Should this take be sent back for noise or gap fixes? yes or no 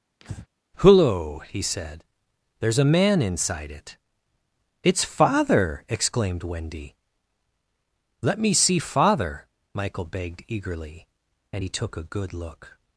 yes